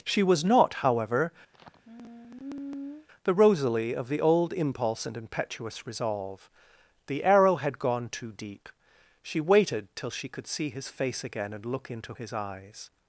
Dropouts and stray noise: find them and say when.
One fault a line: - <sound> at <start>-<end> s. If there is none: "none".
- sigh at 1.5-3.1 s